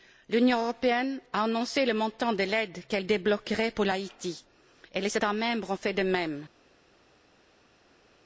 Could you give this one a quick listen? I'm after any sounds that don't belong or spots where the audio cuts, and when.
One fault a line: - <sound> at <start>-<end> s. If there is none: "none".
none